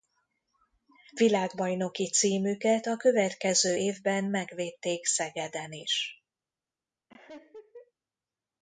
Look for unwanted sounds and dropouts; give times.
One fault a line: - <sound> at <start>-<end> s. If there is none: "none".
- laugh at 7.1-7.9 s